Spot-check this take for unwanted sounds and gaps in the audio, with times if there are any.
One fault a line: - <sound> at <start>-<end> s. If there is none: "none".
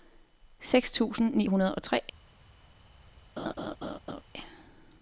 - laugh at 3.4-4.2 s